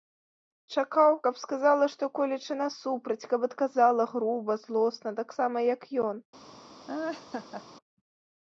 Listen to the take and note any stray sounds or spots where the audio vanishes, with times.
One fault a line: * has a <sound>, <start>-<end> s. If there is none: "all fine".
* has a laugh, 6.9-7.6 s